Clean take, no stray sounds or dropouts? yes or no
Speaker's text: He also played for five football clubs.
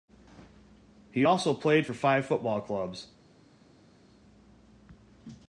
yes